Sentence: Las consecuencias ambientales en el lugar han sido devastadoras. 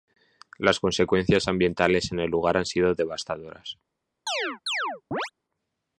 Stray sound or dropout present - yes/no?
yes